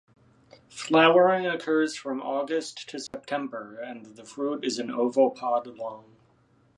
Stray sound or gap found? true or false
true